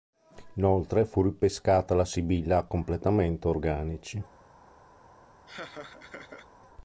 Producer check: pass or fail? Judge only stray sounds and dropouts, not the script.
fail